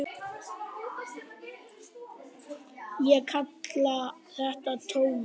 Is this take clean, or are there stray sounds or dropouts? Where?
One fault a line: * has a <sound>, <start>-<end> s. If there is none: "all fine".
all fine